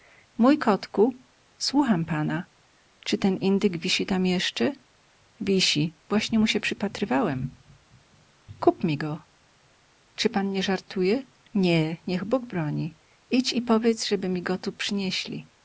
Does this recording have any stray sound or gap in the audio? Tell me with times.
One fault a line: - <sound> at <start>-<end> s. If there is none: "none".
none